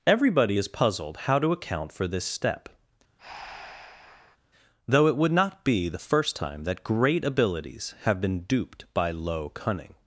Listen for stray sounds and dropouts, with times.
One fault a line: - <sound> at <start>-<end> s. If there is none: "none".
- breath at 3.2-4.4 s